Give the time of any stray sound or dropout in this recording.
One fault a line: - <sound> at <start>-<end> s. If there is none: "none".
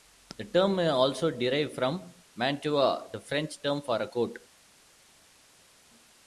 none